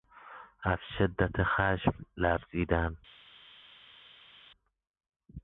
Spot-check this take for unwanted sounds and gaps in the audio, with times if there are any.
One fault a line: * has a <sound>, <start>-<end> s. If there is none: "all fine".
all fine